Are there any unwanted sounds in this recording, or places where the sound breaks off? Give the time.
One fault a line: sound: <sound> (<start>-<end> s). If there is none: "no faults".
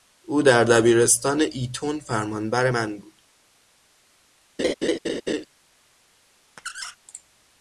sound: laugh (4.6-5.5 s)
sound: squeak (6.6-7.0 s)